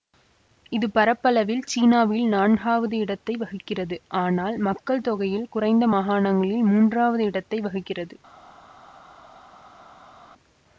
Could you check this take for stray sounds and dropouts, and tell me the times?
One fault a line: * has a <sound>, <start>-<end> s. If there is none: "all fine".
all fine